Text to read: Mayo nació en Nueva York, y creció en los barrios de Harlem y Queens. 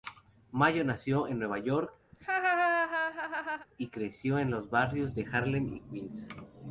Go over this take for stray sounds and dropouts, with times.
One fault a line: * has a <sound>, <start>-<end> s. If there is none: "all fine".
* has a laugh, 2.1-3.7 s